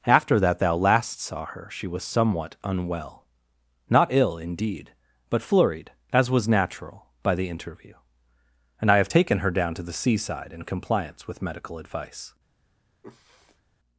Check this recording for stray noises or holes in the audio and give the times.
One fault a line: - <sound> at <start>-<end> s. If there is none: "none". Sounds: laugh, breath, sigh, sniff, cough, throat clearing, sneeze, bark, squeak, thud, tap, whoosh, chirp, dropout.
- sniff at 13.0-13.6 s